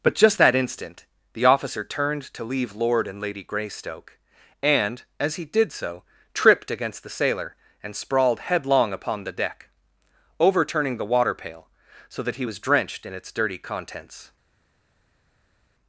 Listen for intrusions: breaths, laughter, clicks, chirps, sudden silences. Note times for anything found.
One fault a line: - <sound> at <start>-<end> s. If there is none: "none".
none